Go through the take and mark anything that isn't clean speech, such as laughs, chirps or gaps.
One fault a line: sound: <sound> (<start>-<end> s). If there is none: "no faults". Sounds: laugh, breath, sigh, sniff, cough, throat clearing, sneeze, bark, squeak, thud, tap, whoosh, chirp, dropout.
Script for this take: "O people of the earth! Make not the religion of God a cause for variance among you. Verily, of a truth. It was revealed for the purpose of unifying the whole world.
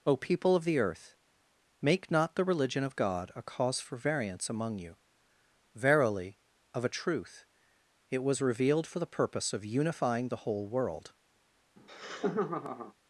sound: laugh (11.8-12.9 s)